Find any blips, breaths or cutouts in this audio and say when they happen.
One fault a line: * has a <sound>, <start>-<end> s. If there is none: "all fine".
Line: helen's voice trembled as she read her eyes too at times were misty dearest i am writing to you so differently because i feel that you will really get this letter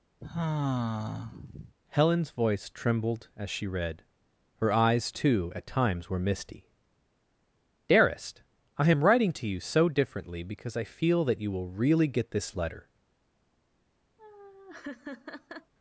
* has a sigh, 0.2-1.7 s
* has a laugh, 14.2-15.7 s